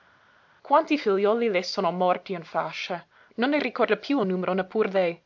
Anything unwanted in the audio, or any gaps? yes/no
no